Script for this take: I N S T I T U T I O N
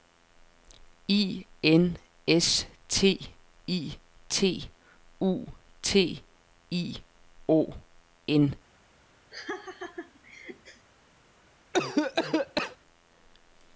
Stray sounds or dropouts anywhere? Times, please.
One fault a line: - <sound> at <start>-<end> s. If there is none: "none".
- laugh at 9.3-10.9 s
- cough at 11.7-12.8 s